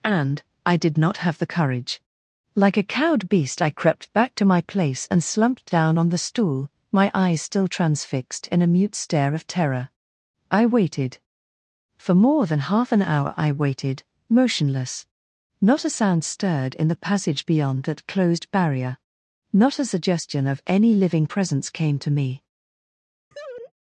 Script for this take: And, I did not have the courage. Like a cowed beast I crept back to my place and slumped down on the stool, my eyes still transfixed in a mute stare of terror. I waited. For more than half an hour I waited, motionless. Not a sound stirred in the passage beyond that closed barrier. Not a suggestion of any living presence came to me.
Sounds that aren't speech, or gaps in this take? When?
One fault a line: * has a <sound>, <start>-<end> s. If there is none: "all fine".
* has a laugh, 23.3-23.7 s